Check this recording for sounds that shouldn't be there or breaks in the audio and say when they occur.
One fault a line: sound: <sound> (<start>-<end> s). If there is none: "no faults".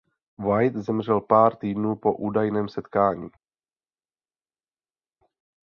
no faults